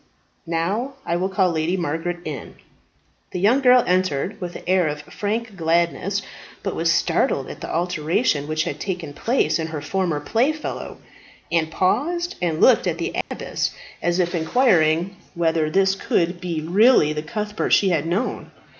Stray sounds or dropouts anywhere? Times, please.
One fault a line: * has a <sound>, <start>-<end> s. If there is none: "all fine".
* has a dropout, 13.2-13.3 s